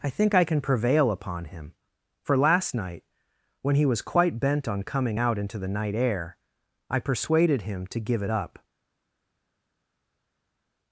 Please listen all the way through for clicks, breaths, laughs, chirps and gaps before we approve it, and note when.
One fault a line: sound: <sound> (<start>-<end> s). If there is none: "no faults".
no faults